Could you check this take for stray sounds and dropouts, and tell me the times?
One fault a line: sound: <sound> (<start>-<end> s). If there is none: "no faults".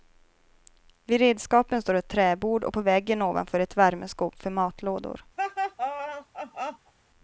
sound: laugh (5.4-6.9 s)